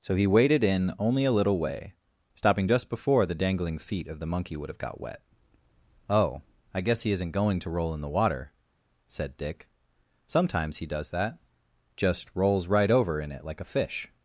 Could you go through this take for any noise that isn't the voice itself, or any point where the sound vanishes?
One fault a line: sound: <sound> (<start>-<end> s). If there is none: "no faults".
no faults